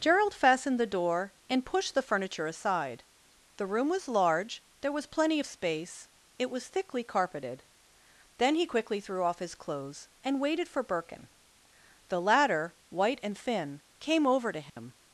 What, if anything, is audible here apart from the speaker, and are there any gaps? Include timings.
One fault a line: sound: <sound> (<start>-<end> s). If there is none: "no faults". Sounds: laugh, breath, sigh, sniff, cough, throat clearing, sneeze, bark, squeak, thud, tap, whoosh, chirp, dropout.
sound: dropout (14.7-14.8 s)